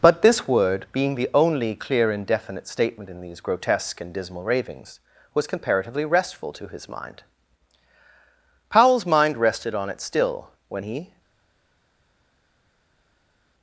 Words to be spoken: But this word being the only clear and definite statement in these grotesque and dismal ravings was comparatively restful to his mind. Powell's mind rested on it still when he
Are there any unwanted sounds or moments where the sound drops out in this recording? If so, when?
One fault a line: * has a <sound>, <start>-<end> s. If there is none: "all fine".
all fine